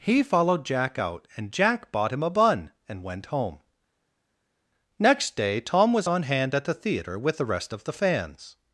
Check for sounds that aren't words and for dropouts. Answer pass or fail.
pass